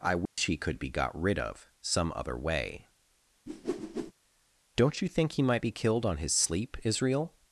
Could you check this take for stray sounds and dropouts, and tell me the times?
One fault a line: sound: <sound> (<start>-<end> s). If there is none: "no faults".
sound: dropout (0.3-0.4 s)
sound: whoosh (3.5-4.1 s)